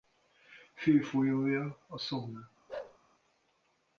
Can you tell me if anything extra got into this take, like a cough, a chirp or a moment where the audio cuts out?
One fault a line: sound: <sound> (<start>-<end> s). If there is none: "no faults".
sound: bark (2.7-3.0 s)